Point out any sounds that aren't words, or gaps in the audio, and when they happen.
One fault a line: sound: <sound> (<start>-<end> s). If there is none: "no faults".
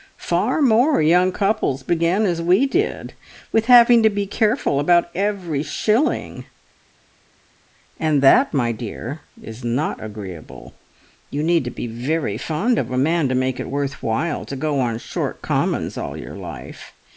no faults